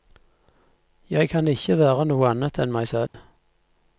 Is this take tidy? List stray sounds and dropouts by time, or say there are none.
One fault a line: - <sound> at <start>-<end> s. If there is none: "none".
- dropout at 3.1-3.1 s